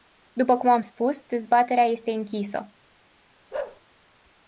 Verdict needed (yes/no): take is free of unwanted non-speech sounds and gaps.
no